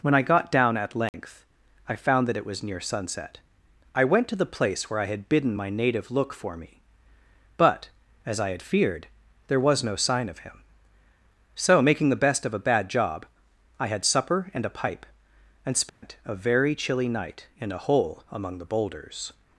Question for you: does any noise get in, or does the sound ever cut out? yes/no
yes